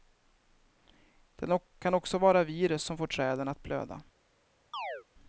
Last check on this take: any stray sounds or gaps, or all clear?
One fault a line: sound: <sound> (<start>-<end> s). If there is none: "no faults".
sound: chirp (4.7-5.0 s)